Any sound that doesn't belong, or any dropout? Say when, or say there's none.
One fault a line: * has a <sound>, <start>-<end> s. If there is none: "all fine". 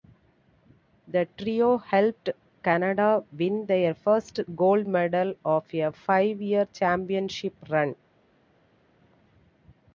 all fine